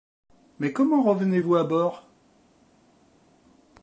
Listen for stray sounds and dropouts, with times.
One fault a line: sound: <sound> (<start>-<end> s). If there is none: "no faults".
no faults